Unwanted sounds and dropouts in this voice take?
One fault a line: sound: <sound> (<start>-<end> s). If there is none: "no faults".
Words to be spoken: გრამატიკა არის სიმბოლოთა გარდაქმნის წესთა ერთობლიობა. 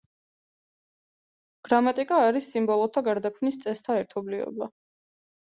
no faults